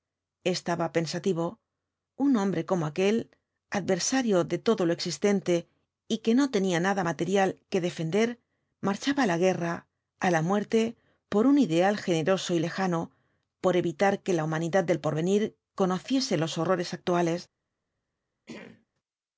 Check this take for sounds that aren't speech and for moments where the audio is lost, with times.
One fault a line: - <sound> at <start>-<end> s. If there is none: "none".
- throat clearing at 18.5-18.9 s